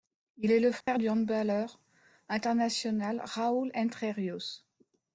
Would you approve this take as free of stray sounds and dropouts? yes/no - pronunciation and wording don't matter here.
no